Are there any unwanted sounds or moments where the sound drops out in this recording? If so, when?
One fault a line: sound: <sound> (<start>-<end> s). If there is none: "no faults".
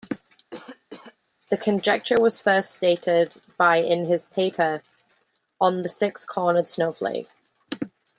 sound: cough (0.5-1.2 s)